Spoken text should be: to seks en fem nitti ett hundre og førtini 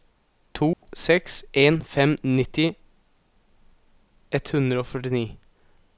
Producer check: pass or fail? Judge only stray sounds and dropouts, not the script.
fail